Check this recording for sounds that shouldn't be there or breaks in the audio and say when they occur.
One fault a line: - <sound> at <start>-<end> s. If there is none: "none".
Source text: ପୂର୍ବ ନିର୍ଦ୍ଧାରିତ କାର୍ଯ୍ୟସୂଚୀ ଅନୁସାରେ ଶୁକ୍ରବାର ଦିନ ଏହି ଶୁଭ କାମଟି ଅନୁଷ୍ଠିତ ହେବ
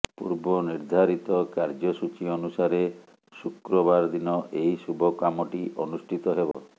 - dropout at 6.5-6.5 s